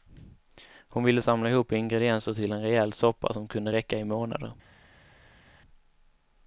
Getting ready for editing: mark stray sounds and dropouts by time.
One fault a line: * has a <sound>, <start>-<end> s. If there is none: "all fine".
all fine